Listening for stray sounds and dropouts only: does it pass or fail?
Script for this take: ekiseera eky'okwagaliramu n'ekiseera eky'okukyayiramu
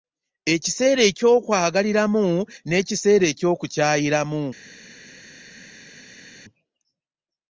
pass